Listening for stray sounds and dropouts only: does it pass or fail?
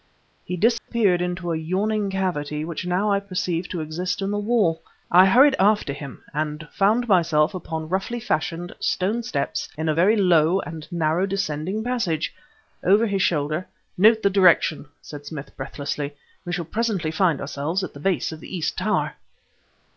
fail